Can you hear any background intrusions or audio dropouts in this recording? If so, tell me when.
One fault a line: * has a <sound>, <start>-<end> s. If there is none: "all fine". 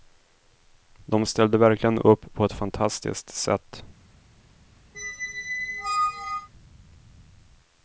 * has a squeak, 4.9-6.5 s